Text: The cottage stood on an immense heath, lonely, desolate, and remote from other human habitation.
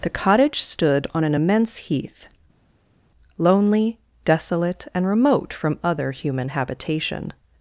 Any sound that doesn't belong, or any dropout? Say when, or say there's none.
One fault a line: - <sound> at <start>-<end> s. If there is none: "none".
none